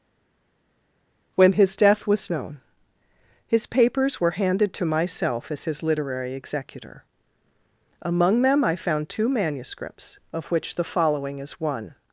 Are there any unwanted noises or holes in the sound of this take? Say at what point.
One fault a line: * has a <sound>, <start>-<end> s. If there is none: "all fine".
all fine